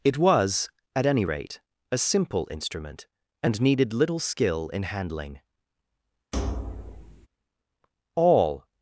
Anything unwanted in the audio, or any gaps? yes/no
yes